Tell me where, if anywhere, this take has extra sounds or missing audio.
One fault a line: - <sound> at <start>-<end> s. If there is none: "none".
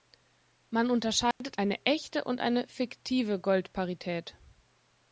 - dropout at 1.3-1.4 s